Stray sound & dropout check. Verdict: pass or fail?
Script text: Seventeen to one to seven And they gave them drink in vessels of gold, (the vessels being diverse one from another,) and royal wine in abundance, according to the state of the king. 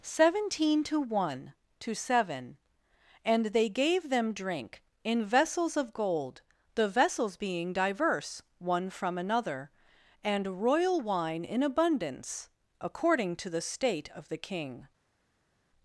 pass